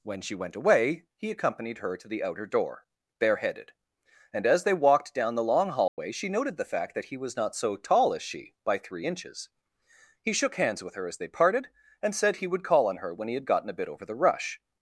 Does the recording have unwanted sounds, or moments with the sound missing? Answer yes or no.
yes